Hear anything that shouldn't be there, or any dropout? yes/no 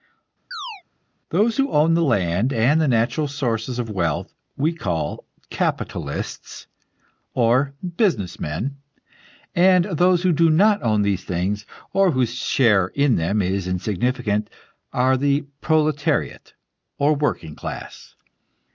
yes